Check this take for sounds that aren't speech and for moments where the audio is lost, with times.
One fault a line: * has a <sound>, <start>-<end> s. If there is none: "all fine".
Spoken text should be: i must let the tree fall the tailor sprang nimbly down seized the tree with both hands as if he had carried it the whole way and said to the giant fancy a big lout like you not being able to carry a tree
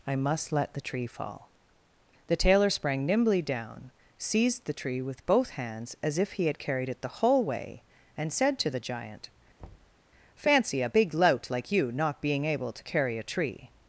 * has a thud, 9.6-10.0 s